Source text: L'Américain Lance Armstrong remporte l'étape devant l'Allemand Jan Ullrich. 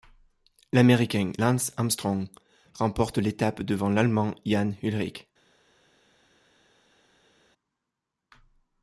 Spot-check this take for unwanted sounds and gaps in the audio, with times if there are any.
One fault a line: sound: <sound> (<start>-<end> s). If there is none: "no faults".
no faults